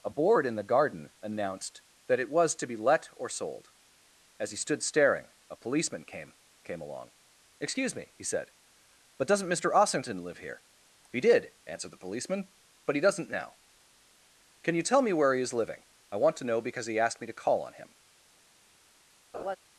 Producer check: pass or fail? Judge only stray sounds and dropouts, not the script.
fail